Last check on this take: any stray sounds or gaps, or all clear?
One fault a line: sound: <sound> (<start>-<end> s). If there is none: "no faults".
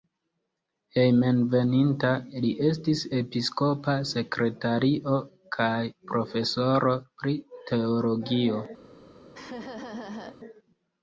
sound: laugh (9.3-10.4 s)